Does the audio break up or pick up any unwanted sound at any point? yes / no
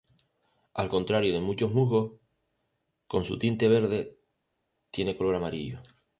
no